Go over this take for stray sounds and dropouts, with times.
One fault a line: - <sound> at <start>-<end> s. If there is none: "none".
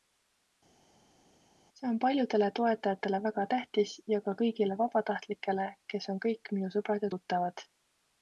none